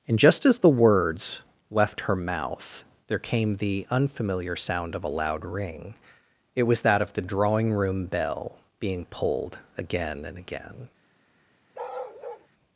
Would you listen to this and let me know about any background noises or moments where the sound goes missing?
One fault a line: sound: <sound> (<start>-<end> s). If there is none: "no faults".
sound: bark (11.7-12.5 s)